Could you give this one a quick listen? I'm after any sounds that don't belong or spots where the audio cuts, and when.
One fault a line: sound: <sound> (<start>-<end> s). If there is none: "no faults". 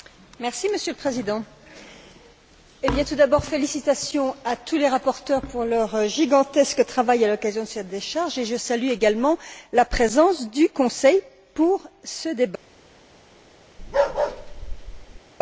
sound: bark (13.8-15.2 s)